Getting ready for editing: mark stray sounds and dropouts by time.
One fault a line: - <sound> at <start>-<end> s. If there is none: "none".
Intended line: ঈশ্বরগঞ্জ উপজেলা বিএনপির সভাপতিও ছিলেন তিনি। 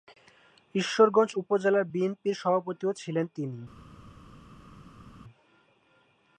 none